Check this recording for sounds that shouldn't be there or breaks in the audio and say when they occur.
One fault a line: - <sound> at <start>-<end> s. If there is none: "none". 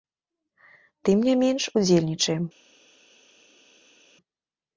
none